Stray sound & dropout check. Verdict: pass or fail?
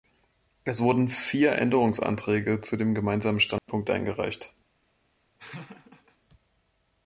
fail